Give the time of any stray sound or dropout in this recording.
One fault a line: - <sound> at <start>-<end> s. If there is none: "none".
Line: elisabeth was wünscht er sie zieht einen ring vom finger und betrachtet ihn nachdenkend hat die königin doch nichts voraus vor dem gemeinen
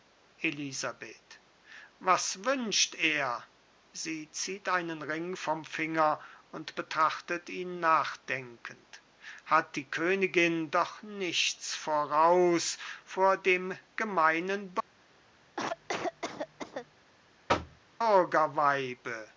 - cough at 15.6-16.9 s
- thud at 17.5-17.8 s